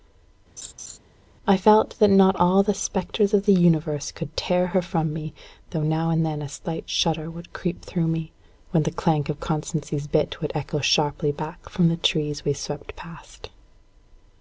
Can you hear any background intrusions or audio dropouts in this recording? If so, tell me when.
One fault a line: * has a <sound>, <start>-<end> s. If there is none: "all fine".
* has a laugh, 0.6-1.0 s